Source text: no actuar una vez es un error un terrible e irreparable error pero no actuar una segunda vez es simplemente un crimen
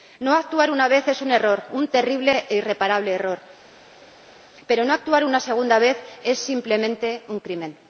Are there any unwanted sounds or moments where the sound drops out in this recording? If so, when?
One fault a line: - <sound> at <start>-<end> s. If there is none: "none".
none